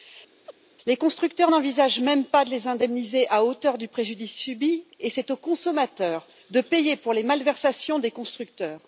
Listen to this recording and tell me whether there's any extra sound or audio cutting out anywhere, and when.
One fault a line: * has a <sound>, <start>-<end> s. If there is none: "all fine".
* has a chirp, 0.5-0.5 s